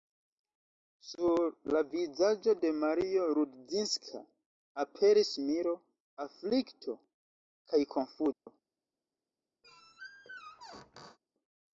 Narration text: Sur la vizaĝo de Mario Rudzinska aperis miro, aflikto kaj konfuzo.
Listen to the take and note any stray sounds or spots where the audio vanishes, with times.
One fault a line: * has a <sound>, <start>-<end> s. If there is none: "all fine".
* has a dropout, 8.3-8.5 s
* has a squeak, 9.6-11.2 s